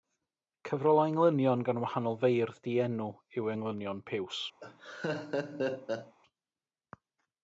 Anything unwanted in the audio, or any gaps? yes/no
yes